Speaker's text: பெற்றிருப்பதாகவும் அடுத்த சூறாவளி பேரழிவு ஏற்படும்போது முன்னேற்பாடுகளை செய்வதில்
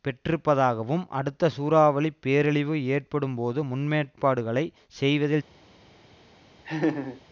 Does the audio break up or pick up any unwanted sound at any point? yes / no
yes